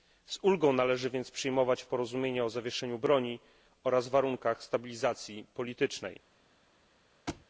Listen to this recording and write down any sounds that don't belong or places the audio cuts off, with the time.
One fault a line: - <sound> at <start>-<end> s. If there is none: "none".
- thud at 7.3-7.5 s